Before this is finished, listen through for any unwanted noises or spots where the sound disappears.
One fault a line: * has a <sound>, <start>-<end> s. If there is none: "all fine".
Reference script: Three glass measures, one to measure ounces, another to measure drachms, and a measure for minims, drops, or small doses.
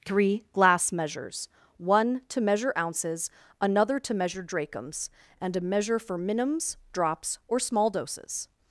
all fine